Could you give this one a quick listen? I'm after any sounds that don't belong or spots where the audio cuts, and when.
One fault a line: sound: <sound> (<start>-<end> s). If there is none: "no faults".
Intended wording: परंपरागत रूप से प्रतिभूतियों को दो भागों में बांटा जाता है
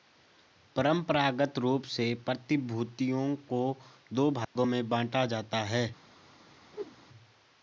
sound: dropout (4.4-4.6 s)
sound: whoosh (6.7-7.0 s)